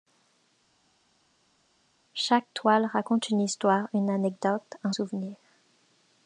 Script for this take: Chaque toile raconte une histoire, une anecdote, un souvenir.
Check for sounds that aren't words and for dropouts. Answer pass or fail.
pass